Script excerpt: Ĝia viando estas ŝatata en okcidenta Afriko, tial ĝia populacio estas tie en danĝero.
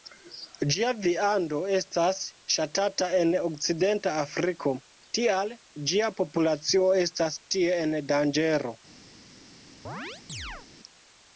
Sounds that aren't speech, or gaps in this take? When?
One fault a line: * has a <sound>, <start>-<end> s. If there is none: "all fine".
* has a chirp, 9.8-10.7 s